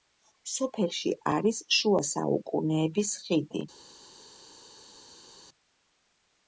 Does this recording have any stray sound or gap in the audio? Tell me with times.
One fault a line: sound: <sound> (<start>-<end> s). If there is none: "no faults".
no faults